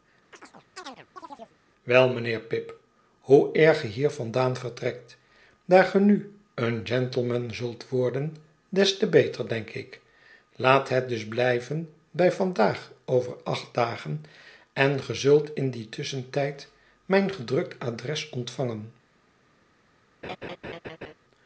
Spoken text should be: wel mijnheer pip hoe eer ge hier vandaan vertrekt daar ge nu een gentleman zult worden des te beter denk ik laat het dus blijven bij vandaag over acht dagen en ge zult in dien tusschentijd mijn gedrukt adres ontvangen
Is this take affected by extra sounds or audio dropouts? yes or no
yes